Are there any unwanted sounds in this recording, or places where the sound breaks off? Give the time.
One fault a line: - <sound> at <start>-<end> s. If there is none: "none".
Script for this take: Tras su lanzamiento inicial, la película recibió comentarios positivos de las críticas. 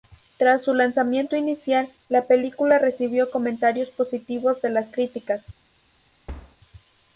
- thud at 6.3-6.6 s